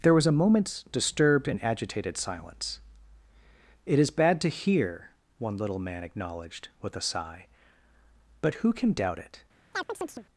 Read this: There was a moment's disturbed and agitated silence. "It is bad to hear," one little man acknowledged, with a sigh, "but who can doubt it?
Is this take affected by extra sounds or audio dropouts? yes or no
yes